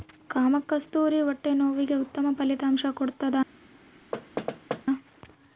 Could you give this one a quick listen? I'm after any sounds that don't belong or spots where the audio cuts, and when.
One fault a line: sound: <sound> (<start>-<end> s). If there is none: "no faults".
sound: thud (4.1-4.8 s)